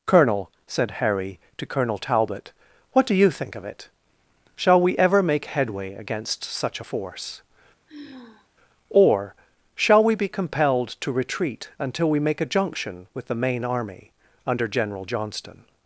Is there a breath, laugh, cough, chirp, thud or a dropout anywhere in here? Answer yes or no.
yes